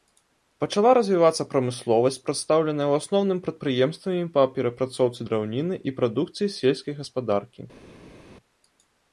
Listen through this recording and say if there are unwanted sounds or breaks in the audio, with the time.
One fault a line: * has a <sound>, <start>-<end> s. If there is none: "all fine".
all fine